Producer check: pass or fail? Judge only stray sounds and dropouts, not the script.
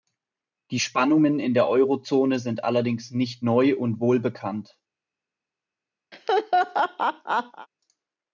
fail